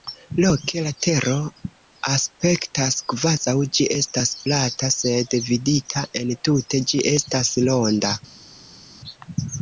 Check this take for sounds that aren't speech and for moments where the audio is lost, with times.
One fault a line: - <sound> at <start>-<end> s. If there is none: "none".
none